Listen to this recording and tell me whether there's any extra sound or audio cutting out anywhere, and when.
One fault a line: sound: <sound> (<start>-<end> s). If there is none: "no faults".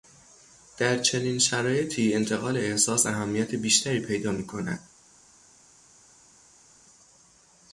no faults